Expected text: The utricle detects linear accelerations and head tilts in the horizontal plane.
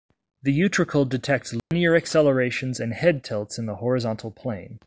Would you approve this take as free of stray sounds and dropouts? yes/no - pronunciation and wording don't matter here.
no